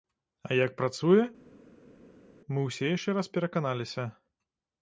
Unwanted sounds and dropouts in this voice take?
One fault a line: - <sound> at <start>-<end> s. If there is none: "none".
none